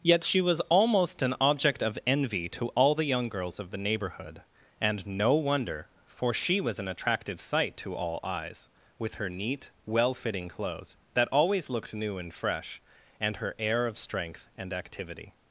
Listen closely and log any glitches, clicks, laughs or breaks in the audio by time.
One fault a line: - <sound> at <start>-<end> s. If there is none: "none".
none